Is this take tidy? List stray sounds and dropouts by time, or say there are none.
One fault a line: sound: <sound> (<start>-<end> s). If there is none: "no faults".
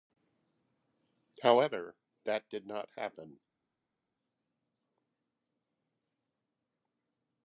no faults